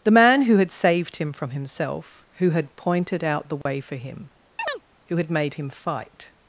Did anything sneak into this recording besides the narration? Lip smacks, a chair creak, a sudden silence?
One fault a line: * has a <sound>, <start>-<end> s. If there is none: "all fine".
* has a dropout, 3.6-3.7 s
* has a chirp, 4.6-4.8 s